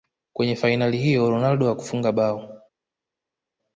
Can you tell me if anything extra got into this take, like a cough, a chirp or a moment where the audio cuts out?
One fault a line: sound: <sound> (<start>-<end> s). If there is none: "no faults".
no faults